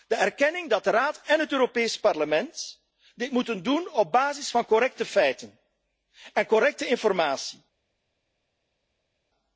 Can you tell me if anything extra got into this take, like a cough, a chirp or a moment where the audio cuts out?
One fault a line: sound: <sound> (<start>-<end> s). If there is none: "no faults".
no faults